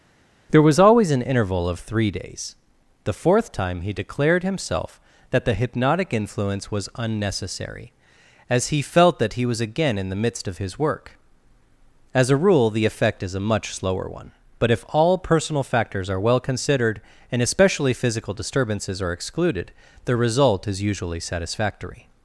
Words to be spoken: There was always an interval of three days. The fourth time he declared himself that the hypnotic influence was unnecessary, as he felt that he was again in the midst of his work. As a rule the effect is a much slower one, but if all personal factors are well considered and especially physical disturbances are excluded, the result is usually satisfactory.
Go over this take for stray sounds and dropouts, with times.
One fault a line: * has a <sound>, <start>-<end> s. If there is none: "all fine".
all fine